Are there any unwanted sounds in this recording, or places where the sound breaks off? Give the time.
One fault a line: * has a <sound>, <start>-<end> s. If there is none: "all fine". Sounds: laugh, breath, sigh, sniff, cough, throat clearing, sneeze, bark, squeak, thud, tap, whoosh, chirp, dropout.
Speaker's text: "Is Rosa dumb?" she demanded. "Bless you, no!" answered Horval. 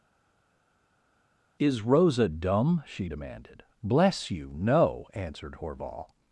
all fine